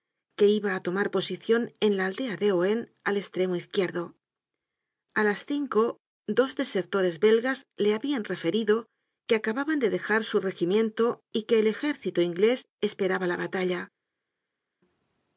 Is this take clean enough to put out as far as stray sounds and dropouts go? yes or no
yes